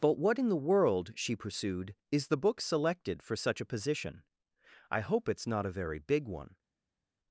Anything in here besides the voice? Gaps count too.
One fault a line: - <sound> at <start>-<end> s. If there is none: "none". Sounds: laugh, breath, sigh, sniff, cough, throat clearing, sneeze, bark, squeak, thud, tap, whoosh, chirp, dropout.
none